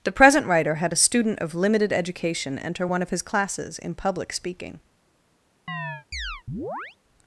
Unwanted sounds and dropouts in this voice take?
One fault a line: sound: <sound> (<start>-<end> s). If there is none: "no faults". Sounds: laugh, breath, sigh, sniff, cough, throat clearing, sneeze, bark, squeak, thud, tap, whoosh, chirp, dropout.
sound: chirp (5.7-7.0 s)